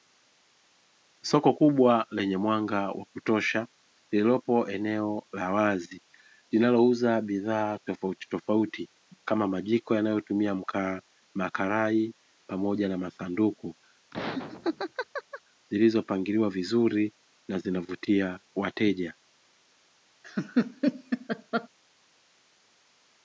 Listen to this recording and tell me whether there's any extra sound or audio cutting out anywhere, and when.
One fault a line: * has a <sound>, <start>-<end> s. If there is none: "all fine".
* has a laugh, 14.1-15.4 s
* has a laugh, 20.2-21.7 s